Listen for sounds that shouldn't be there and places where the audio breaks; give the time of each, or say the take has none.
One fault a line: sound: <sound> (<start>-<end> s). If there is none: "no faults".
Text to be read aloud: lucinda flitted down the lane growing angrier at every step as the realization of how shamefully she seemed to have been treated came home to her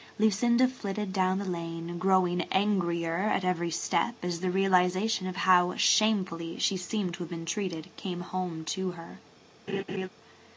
sound: laugh (9.7-10.1 s)